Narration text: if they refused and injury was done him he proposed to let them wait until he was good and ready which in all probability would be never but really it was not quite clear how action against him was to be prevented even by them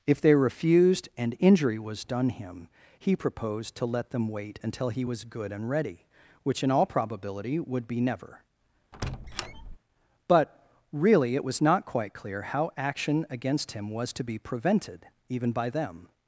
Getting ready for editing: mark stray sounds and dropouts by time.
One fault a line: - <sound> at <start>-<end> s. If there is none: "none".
- squeak at 8.9-9.8 s